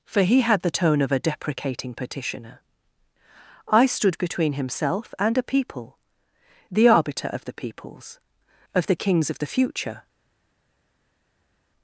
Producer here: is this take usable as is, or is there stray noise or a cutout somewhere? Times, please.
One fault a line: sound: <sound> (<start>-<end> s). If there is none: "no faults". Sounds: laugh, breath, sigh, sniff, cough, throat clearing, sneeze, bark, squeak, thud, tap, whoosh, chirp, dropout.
no faults